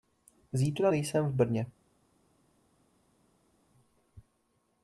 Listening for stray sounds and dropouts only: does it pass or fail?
pass